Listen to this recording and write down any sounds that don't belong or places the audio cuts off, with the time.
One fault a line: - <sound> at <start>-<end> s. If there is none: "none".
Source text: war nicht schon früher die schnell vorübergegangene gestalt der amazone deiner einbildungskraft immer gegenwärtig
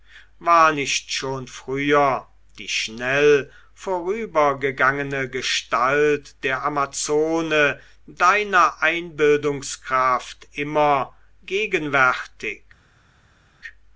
none